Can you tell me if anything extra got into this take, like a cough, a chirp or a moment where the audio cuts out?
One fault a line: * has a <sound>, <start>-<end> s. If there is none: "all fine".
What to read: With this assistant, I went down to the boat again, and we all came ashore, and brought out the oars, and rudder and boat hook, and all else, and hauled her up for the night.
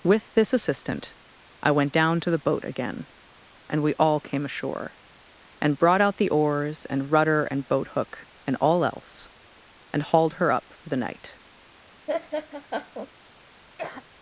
* has a laugh, 12.1-13.1 s
* has a cough, 13.8-14.1 s